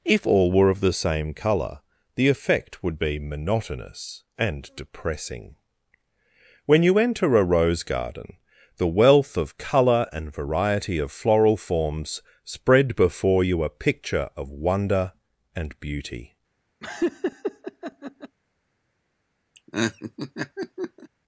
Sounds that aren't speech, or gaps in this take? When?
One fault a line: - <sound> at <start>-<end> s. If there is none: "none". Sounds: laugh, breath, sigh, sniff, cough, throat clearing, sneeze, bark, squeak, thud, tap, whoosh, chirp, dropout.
- laugh at 16.8-18.4 s
- laugh at 19.5-21.1 s